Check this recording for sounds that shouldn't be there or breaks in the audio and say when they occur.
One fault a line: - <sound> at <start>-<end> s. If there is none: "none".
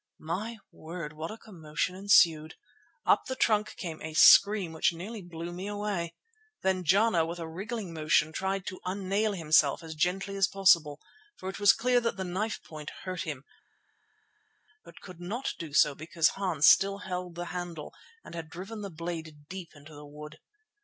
none